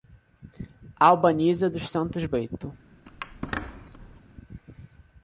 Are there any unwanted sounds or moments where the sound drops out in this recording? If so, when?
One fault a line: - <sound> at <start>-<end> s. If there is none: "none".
- squeak at 3.1-4.2 s